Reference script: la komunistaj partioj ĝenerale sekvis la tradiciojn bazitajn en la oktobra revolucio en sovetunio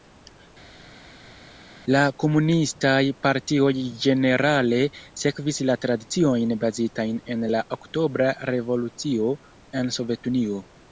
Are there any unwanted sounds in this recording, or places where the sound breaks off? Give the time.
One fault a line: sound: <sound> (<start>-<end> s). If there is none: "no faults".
no faults